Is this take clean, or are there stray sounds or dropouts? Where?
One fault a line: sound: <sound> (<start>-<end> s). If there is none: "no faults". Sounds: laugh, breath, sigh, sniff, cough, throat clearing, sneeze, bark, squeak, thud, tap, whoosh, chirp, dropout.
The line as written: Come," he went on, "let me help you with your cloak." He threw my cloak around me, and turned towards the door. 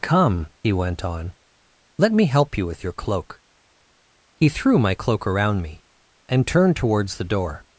no faults